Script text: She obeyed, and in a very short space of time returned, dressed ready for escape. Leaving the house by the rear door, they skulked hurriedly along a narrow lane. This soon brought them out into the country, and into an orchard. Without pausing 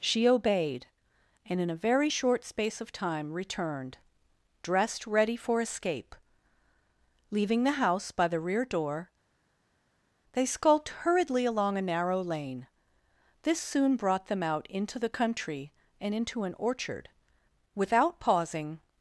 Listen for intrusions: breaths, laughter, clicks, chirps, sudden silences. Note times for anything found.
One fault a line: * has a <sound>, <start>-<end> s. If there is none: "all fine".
all fine